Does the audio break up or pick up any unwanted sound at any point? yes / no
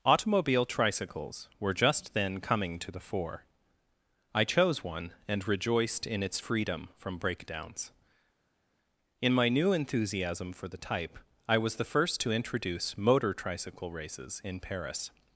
no